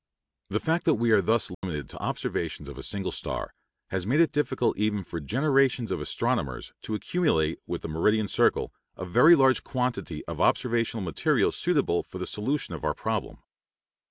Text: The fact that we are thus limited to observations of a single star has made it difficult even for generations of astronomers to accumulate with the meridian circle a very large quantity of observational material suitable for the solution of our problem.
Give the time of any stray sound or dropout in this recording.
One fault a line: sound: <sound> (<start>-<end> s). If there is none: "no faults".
sound: dropout (1.5-1.6 s)